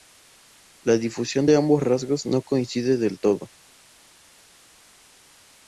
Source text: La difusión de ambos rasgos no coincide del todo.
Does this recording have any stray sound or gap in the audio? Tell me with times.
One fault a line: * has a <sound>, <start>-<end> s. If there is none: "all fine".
all fine